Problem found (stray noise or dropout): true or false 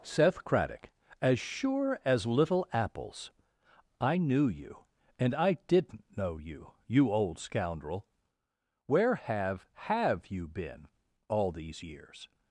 false